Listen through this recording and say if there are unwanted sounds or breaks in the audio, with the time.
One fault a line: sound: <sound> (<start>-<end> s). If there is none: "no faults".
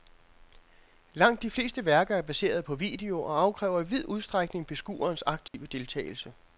sound: dropout (5.5-5.5 s)